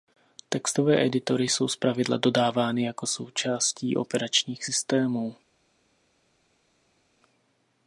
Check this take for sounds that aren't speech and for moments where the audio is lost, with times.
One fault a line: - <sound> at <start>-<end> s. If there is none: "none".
none